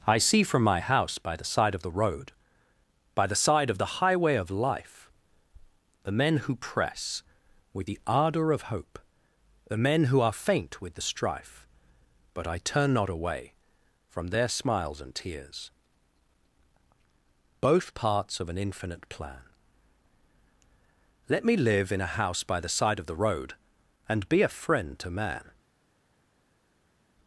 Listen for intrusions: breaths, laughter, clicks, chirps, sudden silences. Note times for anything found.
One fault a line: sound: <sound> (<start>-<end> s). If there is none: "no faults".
no faults